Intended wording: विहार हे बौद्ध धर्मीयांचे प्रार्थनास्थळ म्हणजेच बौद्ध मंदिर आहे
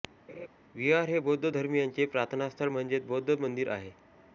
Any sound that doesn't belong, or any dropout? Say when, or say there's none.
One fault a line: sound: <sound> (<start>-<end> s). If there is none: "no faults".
sound: laugh (0.3-0.5 s)